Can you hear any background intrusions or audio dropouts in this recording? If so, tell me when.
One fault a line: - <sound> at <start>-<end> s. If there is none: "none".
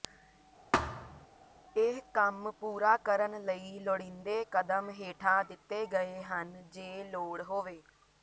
- thud at 0.7-1.3 s